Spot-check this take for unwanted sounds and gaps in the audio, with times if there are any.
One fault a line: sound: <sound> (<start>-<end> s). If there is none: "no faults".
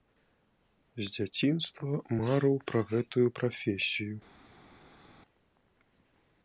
no faults